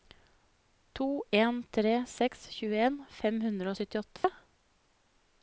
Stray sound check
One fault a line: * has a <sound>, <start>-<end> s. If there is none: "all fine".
* has a dropout, 4.2-4.2 s